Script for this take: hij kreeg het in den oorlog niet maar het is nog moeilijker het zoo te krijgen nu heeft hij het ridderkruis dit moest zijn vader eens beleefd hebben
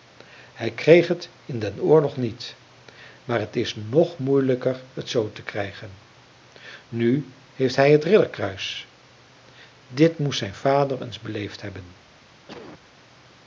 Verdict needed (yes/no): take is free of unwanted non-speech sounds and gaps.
no